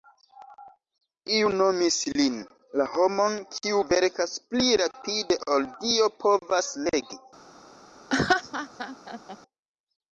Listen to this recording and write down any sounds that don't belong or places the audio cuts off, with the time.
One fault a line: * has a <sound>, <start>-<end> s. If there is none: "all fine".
* has a laugh, 8.1-9.4 s